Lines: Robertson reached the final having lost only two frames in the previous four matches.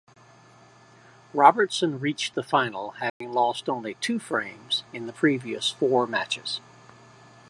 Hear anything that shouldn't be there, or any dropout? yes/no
yes